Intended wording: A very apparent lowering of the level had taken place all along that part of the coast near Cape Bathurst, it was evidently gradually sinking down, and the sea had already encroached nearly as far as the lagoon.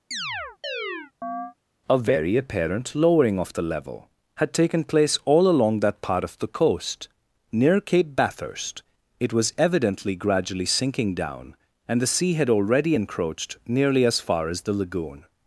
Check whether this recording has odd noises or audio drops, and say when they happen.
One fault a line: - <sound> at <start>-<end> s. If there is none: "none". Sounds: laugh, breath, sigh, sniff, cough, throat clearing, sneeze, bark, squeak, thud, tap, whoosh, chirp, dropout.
- chirp at 0.1-1.5 s